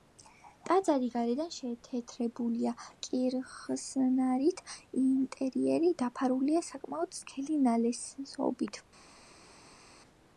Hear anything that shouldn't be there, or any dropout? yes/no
no